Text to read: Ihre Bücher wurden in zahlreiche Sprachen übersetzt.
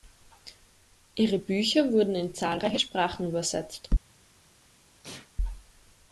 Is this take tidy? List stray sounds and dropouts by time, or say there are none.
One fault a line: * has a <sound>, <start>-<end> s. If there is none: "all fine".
* has a sneeze, 5.0-5.3 s